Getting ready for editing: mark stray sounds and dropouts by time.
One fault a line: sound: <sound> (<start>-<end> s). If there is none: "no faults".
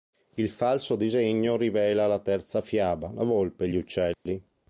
sound: dropout (4.1-4.3 s)